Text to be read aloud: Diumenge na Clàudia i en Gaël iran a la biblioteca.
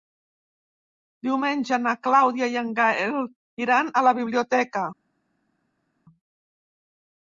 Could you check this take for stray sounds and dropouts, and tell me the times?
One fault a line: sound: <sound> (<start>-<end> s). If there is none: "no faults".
no faults